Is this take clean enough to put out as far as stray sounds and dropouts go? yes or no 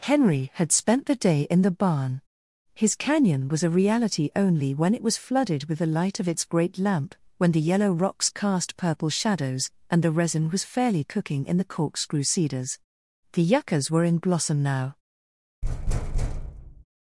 no